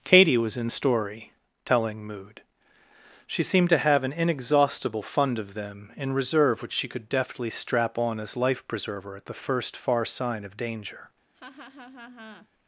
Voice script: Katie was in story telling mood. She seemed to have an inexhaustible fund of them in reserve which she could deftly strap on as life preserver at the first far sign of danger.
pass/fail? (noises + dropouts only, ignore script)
fail